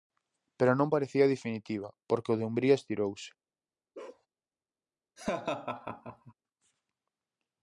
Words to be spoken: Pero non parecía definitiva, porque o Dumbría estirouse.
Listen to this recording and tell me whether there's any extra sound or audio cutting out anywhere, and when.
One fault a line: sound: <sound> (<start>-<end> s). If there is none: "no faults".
sound: bark (3.9-4.3 s)
sound: laugh (5.2-6.3 s)